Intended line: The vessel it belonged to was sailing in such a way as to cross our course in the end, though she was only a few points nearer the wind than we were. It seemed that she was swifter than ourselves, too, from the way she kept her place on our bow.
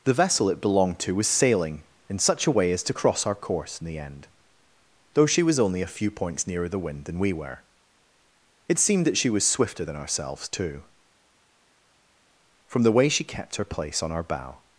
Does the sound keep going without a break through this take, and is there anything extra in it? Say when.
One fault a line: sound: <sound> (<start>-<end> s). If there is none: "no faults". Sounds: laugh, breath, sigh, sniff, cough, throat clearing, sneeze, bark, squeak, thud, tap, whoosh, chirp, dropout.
no faults